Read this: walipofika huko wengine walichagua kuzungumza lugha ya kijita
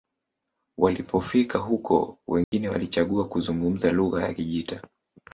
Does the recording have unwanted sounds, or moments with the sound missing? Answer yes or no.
yes